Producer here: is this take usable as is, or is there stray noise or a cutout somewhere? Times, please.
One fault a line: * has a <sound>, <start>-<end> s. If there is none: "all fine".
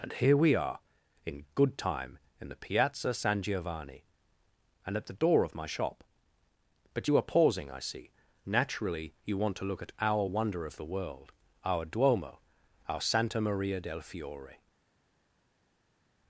all fine